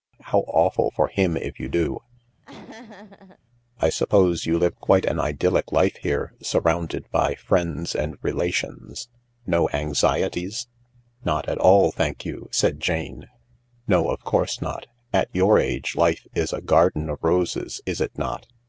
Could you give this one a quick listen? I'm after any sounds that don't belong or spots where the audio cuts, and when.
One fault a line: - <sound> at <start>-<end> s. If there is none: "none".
- laugh at 2.4-3.4 s